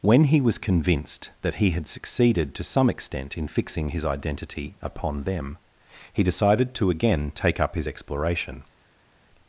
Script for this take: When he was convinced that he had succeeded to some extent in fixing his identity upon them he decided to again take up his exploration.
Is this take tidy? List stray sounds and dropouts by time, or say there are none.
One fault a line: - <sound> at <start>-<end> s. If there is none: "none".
none